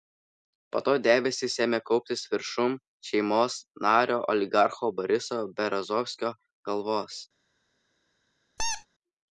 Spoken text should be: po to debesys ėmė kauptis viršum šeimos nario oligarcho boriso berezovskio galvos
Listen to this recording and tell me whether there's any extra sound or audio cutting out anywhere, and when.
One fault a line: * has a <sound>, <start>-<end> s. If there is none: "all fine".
* has a squeak, 8.6-8.9 s